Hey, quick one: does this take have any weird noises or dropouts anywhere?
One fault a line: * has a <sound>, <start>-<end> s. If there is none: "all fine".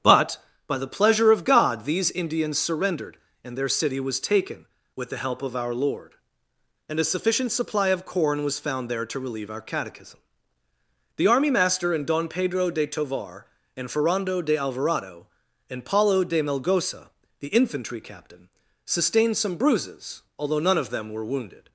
all fine